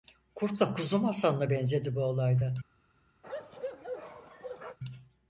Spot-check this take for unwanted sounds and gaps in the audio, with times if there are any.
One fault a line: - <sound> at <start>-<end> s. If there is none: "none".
- bark at 3.2-4.8 s